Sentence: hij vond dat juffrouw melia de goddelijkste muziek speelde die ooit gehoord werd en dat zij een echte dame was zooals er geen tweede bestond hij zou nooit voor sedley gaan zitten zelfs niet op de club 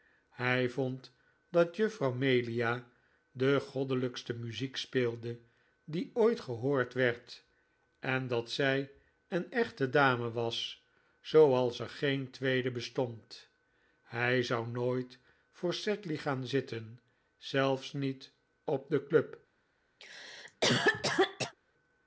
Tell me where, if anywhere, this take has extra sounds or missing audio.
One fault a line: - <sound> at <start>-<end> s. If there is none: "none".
- cough at 20.0-21.5 s